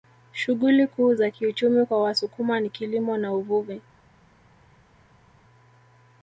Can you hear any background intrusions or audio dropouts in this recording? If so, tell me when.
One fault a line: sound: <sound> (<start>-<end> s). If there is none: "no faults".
no faults